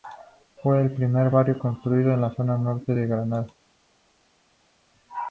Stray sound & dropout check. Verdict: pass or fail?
pass